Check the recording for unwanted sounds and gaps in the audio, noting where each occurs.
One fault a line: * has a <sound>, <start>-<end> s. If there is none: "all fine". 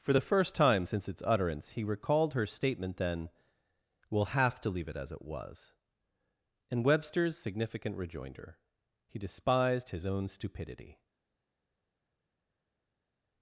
all fine